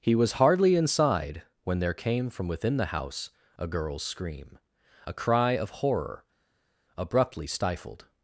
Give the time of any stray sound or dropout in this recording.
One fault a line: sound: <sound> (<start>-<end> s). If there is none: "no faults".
no faults